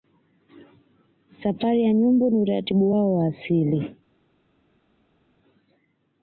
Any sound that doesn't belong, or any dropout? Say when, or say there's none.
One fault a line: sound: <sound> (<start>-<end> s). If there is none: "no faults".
no faults